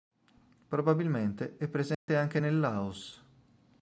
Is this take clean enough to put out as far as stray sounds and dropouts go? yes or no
no